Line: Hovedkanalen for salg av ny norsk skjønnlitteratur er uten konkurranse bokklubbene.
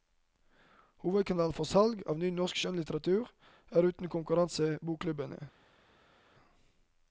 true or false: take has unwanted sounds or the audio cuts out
false